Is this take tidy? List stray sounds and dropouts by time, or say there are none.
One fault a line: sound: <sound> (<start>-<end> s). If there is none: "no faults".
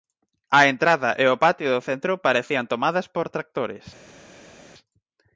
no faults